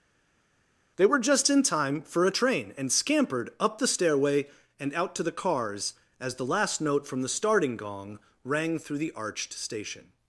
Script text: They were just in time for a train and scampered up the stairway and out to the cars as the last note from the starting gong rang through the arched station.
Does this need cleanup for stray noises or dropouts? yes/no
no